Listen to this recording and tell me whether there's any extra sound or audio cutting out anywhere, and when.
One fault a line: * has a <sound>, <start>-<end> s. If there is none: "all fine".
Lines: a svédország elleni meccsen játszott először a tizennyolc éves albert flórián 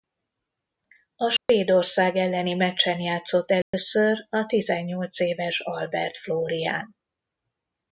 * has a dropout, 1.4-1.5 s
* has a dropout, 3.6-3.7 s